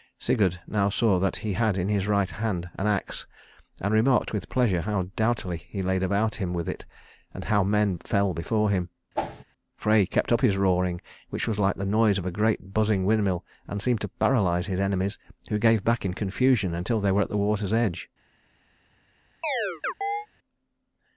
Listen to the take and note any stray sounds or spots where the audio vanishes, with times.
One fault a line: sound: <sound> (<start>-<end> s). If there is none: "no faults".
sound: whoosh (9.2-9.4 s)
sound: chirp (19.4-20.3 s)